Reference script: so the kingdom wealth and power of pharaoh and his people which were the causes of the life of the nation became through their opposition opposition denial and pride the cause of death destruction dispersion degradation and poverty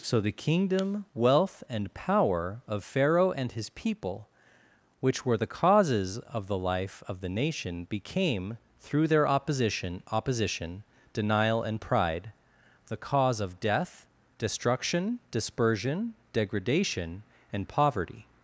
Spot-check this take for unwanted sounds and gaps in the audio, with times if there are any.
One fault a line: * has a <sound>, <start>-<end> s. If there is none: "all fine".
all fine